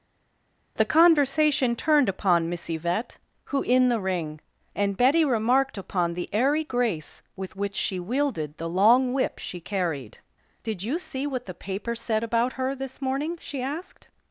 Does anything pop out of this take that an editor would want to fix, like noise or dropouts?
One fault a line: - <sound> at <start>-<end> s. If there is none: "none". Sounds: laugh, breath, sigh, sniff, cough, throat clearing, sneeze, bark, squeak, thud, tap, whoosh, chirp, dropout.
none